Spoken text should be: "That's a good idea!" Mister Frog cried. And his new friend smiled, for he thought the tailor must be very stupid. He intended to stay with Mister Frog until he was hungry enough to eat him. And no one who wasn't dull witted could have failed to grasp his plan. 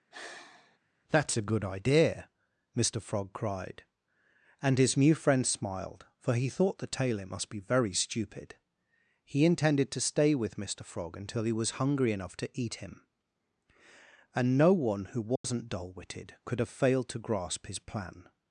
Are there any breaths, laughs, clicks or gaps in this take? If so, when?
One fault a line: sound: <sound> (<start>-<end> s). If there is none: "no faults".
sound: sigh (0.1-0.8 s)
sound: dropout (15.4-15.4 s)